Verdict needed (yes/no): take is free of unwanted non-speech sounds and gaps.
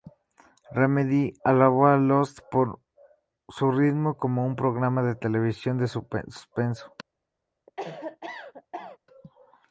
no